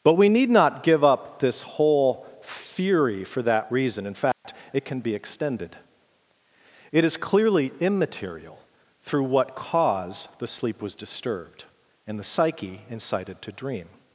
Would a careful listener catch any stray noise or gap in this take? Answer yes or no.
yes